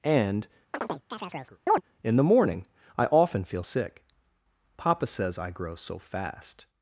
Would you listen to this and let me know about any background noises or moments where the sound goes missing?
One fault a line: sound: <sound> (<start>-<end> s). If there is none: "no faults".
sound: chirp (0.7-1.8 s)